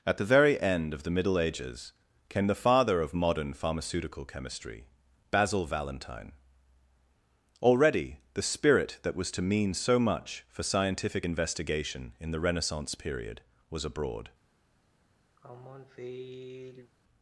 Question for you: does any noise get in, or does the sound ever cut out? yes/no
yes